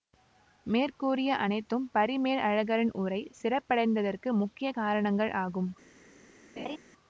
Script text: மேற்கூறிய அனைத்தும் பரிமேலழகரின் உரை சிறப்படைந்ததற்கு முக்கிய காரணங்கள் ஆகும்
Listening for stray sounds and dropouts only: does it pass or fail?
fail